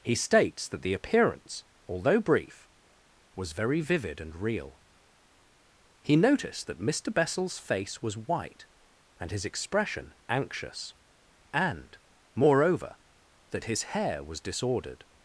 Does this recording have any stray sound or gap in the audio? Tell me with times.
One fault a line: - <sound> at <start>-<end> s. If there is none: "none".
none